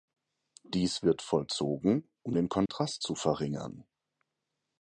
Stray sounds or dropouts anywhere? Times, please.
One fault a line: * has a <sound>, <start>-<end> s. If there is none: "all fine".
* has a dropout, 2.7-2.7 s